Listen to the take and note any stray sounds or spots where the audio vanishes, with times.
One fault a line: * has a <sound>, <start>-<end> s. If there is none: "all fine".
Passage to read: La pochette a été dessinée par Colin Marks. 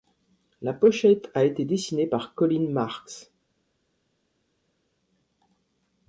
all fine